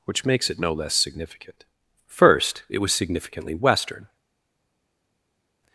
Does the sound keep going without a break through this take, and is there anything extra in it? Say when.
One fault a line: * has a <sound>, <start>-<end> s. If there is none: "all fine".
all fine